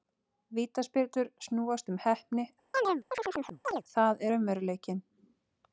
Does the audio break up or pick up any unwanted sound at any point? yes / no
yes